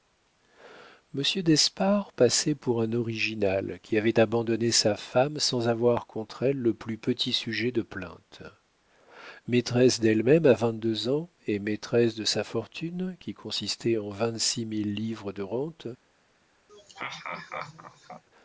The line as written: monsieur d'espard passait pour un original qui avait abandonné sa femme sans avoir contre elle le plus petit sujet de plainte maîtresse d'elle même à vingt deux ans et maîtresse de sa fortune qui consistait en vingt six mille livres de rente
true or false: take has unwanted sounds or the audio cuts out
true